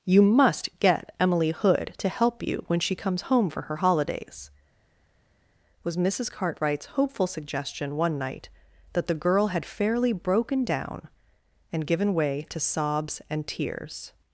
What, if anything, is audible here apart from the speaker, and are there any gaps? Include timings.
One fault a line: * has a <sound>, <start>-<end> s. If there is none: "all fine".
all fine